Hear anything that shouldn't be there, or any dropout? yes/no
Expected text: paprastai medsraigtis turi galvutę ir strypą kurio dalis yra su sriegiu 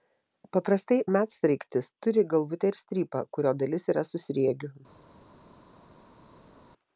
no